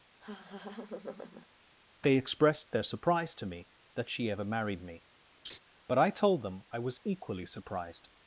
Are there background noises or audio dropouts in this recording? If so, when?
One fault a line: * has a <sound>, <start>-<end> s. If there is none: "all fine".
* has a laugh, 0.2-1.5 s
* has a laugh, 5.4-5.6 s